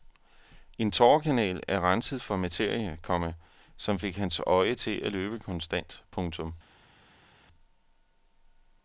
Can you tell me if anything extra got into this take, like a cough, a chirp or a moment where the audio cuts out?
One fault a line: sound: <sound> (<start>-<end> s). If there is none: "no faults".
no faults